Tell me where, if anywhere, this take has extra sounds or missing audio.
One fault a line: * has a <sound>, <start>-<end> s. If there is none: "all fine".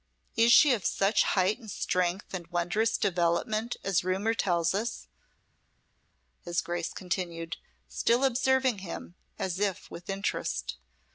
all fine